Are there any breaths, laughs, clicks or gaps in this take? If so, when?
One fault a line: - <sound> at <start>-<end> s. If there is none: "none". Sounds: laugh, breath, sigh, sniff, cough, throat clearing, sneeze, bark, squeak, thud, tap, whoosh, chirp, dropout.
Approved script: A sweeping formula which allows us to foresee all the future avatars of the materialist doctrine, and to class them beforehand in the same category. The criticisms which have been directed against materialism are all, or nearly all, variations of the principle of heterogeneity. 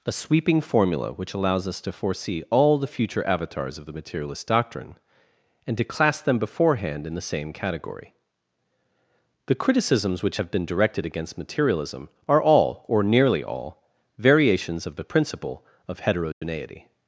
- dropout at 16.3-16.4 s